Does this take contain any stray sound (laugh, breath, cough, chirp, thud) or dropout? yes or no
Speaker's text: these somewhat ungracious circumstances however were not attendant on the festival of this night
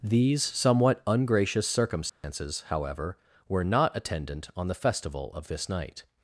yes